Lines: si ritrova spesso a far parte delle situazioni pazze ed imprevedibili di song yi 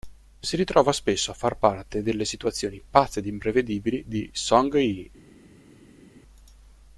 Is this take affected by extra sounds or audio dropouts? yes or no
no